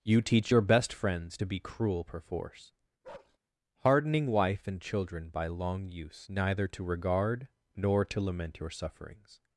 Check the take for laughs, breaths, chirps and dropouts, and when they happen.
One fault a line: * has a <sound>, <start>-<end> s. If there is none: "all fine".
* has a bark, 3.0-3.4 s